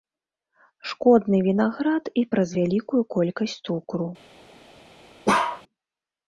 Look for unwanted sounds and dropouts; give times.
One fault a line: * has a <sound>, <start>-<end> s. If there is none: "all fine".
* has a bark, 5.3-5.6 s